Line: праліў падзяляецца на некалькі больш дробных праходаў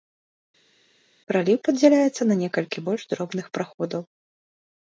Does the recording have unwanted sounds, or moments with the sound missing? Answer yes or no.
no